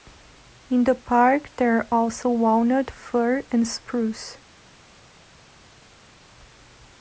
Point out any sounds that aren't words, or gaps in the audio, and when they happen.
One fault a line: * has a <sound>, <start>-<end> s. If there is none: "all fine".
all fine